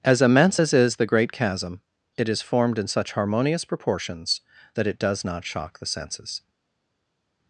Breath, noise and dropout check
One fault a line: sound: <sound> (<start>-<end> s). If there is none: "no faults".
no faults